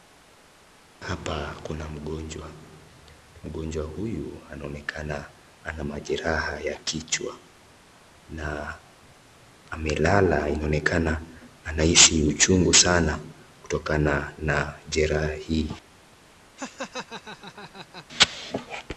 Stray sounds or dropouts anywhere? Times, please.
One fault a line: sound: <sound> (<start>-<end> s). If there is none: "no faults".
sound: laugh (16.6-18.1 s)